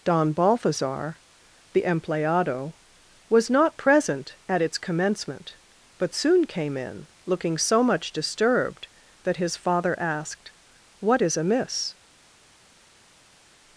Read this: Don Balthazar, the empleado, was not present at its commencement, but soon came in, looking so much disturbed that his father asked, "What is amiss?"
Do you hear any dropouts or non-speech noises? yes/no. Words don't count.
no